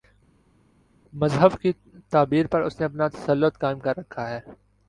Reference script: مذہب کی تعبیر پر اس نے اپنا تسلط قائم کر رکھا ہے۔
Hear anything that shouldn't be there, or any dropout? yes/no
no